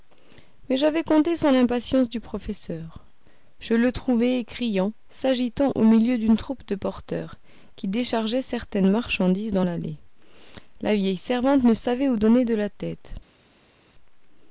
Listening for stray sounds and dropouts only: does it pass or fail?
pass